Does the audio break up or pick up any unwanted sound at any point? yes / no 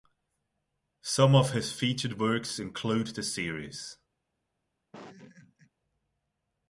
yes